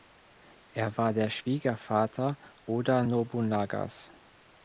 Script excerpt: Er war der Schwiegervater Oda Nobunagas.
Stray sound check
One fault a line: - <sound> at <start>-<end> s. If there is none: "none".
none